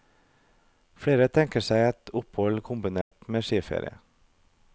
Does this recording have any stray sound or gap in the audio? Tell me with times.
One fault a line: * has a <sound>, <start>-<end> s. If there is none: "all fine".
* has a dropout, 3.0-3.1 s